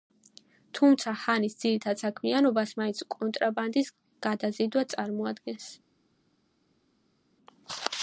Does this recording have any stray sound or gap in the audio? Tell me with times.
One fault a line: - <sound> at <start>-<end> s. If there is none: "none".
none